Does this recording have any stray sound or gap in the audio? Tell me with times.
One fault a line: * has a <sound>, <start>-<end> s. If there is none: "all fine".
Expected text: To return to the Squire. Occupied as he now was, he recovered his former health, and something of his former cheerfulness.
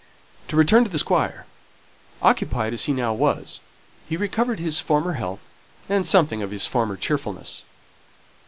all fine